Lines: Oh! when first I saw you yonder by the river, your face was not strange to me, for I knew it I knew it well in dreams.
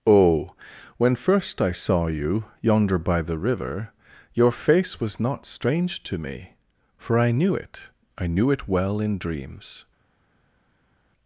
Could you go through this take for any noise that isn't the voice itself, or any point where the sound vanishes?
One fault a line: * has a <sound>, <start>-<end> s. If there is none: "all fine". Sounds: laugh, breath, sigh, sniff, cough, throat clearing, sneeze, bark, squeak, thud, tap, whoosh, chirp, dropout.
all fine